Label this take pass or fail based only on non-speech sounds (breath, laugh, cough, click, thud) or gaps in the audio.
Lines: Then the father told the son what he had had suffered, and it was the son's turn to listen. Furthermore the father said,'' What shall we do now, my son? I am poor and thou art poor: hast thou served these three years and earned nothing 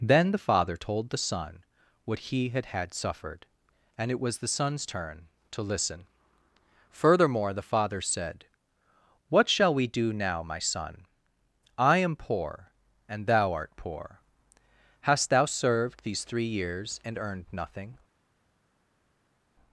pass